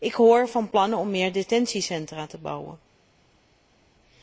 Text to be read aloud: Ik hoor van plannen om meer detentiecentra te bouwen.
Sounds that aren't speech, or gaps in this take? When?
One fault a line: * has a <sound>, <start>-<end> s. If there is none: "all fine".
all fine